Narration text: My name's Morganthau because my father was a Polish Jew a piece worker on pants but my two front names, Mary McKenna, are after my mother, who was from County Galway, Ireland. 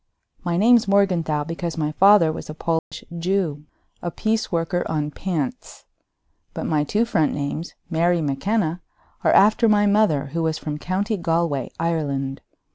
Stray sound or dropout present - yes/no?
yes